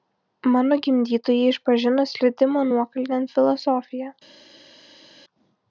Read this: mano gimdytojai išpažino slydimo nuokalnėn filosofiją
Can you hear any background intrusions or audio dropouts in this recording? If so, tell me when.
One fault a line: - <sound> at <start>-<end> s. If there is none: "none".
none